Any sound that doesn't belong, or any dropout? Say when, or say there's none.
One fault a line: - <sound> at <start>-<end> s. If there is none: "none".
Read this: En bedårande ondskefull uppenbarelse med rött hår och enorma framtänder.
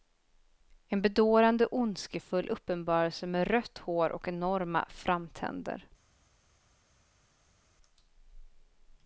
none